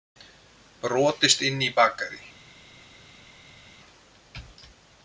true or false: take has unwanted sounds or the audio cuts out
false